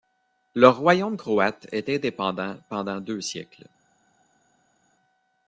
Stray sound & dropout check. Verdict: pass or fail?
pass